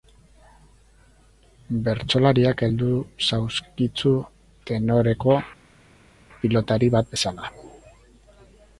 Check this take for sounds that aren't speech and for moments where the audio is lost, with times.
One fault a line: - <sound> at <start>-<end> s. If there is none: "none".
none